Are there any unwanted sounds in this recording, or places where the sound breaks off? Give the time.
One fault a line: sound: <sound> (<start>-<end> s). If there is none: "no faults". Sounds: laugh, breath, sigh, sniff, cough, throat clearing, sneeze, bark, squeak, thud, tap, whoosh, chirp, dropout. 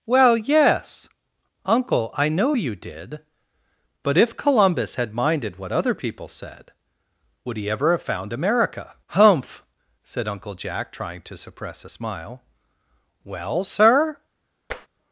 sound: tap (14.7-14.9 s)